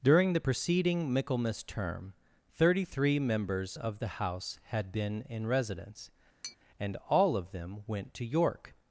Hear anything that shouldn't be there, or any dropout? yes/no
yes